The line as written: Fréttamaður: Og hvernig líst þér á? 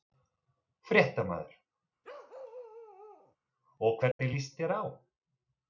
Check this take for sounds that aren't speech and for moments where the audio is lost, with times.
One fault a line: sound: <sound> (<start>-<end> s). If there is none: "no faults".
sound: bark (2.0-3.4 s)
sound: dropout (4.1-4.2 s)